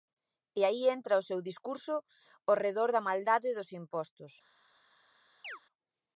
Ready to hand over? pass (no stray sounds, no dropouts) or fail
fail